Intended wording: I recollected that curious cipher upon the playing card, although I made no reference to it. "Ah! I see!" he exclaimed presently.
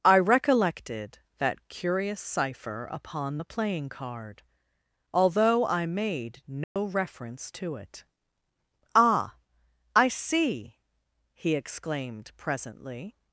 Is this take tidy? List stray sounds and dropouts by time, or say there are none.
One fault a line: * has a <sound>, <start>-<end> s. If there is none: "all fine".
* has a dropout, 6.6-6.8 s